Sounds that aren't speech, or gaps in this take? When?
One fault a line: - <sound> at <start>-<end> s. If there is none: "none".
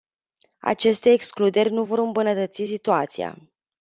none